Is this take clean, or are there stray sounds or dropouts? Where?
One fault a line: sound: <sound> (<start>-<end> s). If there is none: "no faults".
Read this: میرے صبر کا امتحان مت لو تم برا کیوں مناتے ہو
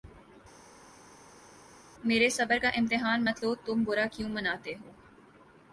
no faults